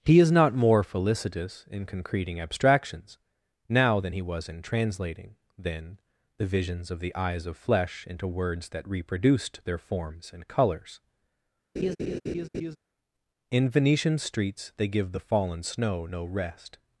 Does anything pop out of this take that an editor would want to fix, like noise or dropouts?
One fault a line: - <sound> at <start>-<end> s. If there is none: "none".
- laugh at 11.8-12.8 s